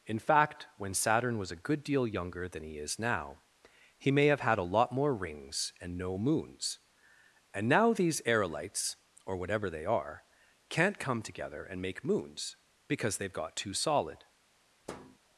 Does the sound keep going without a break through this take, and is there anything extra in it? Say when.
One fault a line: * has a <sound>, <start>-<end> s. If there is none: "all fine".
* has a thud, 14.8-15.2 s